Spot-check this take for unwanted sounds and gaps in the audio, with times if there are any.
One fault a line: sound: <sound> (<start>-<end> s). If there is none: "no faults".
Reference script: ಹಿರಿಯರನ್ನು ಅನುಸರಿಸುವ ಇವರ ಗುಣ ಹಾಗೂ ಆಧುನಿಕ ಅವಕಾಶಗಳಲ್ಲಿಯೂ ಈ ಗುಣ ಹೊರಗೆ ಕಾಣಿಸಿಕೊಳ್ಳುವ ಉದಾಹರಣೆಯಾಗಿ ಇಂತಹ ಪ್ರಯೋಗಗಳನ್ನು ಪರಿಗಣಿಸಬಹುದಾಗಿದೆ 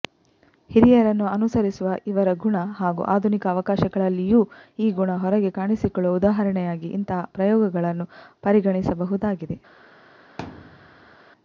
sound: thud (10.4-11.2 s)